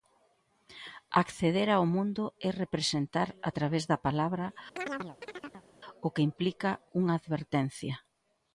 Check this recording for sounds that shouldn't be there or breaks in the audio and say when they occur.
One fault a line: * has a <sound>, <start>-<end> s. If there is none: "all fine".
* has a chirp, 4.8-5.7 s